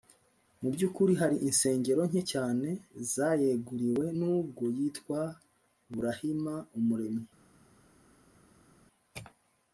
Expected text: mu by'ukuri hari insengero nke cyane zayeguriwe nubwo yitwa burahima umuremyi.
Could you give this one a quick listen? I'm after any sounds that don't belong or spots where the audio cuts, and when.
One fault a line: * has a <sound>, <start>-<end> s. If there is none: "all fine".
all fine